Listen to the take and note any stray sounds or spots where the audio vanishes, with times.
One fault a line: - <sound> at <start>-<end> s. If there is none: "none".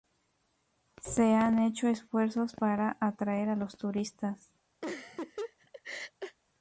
- laugh at 4.8-6.4 s